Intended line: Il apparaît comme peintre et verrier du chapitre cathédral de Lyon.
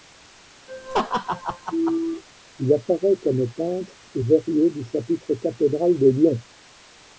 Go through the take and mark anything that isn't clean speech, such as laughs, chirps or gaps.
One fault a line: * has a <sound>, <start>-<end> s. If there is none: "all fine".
* has a laugh, 0.7-2.2 s